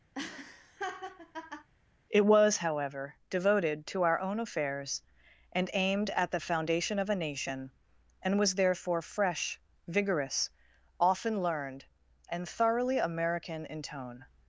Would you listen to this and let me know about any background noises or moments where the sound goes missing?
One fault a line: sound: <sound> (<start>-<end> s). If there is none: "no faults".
sound: laugh (0.1-1.7 s)